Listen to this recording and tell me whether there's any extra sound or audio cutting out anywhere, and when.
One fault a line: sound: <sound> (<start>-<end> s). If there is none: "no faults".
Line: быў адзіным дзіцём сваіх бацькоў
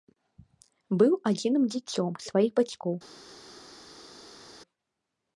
no faults